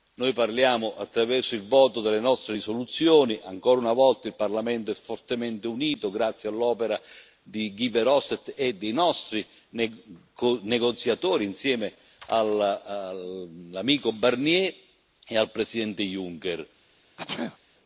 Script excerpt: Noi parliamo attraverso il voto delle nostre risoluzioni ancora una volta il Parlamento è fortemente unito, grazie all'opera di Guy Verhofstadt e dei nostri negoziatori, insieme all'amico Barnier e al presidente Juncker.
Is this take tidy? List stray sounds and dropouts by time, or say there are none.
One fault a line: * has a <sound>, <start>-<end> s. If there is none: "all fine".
* has a sneeze, 17.2-17.6 s